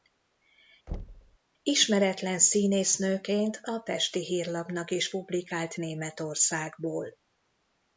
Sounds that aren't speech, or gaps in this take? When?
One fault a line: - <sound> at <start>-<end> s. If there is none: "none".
- thud at 0.9-1.4 s